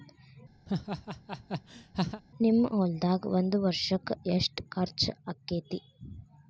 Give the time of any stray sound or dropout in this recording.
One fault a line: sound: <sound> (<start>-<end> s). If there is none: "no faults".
sound: laugh (0.7-2.2 s)